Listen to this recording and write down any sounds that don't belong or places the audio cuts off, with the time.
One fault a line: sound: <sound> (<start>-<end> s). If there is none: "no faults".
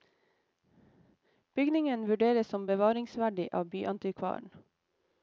no faults